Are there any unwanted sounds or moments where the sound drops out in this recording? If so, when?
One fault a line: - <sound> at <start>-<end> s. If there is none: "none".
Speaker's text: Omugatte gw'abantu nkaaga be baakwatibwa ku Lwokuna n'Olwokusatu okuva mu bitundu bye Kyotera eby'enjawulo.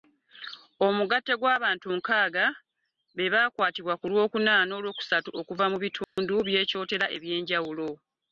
- dropout at 6.0-6.2 s